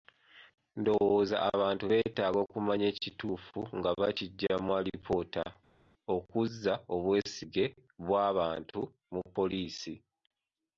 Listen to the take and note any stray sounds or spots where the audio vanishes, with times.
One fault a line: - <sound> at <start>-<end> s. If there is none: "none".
none